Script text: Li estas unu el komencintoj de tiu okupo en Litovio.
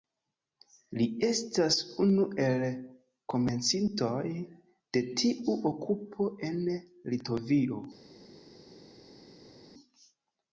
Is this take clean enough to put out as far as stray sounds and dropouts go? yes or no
yes